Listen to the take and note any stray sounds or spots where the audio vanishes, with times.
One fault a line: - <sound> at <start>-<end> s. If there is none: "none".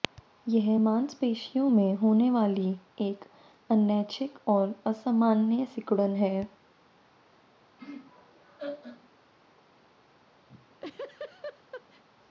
- laugh at 7.8-9.1 s
- laugh at 10.5-12.0 s